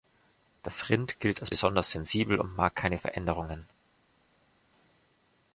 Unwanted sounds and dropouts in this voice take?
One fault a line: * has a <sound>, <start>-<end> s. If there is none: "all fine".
all fine